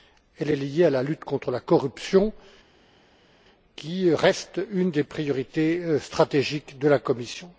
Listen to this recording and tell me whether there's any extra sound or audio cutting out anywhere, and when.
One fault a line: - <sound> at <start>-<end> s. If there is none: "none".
none